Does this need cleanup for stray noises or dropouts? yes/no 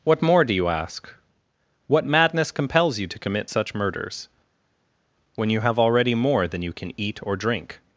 no